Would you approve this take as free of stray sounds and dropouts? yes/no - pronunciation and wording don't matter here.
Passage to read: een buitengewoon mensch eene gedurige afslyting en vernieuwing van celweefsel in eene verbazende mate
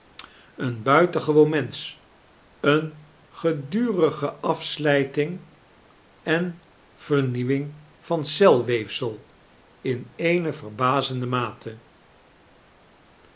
yes